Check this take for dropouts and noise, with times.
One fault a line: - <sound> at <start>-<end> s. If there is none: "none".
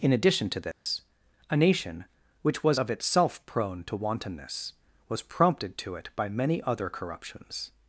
- dropout at 0.7-0.9 s